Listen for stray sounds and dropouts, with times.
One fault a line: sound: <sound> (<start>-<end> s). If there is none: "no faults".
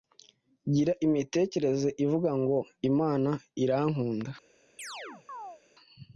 sound: chirp (4.8-5.6 s)